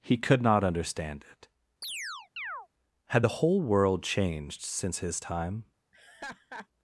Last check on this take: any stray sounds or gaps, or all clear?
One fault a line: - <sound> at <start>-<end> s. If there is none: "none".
- chirp at 1.8-2.7 s
- laugh at 5.9-6.7 s